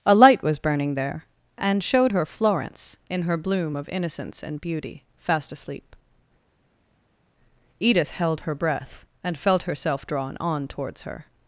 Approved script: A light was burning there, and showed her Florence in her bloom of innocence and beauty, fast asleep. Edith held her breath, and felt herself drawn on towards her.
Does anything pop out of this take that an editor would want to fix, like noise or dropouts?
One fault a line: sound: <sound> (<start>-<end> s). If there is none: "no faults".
no faults